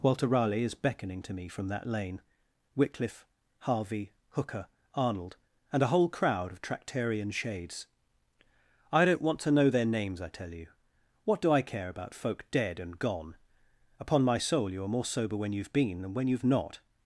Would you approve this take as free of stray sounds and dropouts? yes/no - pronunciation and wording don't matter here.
yes